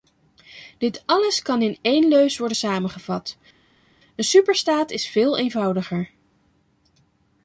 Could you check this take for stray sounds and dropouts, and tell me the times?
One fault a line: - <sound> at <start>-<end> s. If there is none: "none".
none